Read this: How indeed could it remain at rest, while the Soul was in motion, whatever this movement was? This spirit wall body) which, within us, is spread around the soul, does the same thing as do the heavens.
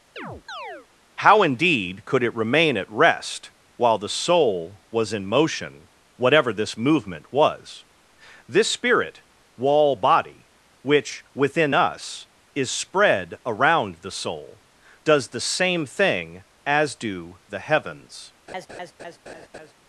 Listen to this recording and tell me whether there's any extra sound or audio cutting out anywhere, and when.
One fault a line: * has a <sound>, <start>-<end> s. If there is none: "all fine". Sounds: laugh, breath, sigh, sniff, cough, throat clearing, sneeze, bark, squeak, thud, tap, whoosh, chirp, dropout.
* has a chirp, 0.2-0.9 s
* has a laugh, 18.5-19.7 s